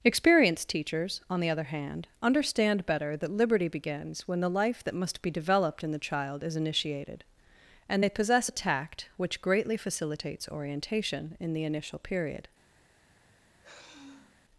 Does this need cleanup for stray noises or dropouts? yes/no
yes